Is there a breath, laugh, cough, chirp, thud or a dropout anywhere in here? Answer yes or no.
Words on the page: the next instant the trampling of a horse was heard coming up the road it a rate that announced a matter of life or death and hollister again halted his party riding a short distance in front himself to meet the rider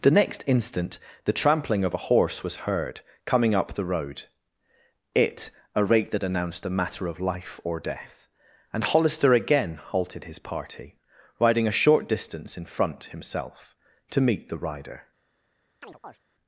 yes